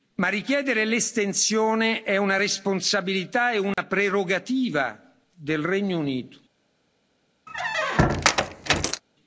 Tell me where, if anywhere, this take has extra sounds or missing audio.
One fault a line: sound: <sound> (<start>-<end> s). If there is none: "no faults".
sound: dropout (3.7-3.8 s)
sound: squeak (7.5-9.0 s)